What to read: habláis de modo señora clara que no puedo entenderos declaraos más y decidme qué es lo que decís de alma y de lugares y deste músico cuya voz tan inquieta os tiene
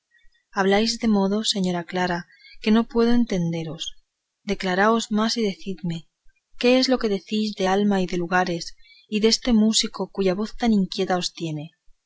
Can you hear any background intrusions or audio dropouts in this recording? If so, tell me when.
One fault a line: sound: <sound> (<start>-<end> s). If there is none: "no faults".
no faults